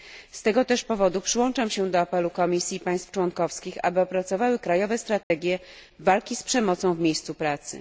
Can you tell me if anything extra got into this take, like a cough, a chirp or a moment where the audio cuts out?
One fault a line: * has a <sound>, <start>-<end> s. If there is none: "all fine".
* has a dropout, 5.2-5.3 s